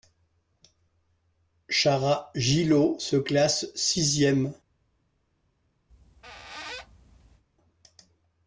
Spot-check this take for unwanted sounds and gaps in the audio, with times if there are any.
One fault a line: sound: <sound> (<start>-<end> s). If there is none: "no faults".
sound: squeak (5.9-7.4 s)